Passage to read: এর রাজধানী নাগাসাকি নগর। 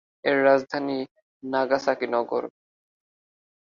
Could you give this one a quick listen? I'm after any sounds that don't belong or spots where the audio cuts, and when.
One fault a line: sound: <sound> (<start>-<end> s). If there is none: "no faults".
no faults